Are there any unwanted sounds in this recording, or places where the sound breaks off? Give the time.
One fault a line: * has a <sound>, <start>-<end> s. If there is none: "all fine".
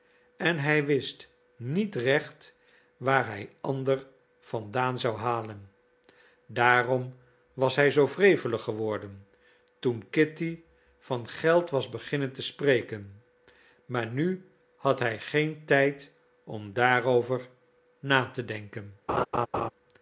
* has a laugh, 19.1-19.7 s